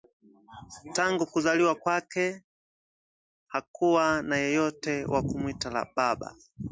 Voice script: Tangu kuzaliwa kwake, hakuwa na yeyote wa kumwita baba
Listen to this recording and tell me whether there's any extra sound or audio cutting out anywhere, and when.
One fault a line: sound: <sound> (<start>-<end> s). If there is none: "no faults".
no faults